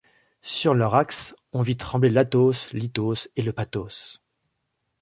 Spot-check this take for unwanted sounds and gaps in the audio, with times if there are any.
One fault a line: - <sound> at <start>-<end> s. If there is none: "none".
none